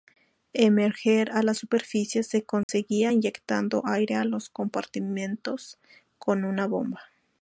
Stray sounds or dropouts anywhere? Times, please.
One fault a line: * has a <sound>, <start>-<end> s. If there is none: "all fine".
* has a dropout, 2.6-2.7 s